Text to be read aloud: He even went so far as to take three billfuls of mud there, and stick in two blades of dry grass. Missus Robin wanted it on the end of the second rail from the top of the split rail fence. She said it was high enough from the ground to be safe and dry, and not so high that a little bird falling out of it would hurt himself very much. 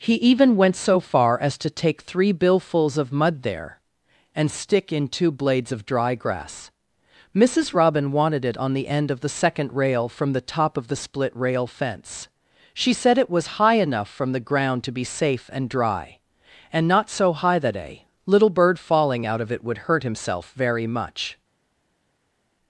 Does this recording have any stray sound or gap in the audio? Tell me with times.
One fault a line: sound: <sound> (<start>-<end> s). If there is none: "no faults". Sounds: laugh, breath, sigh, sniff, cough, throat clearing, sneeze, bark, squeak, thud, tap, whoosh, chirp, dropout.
no faults